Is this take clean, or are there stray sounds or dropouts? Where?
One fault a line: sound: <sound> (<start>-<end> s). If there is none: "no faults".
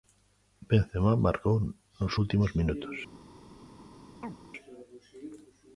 sound: chirp (4.2-4.4 s)